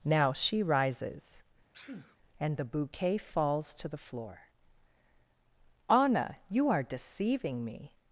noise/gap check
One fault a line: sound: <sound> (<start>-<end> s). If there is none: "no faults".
sound: sneeze (1.7-2.2 s)